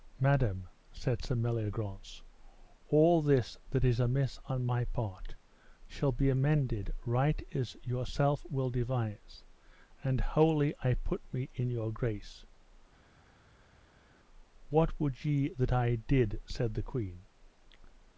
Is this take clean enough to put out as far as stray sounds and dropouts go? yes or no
yes